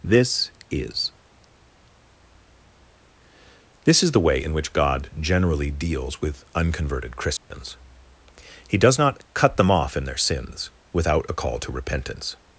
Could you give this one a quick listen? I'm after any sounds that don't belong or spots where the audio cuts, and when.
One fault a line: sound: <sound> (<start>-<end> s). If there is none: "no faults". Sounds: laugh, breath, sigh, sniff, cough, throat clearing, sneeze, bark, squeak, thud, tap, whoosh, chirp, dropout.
sound: dropout (7.4-7.5 s)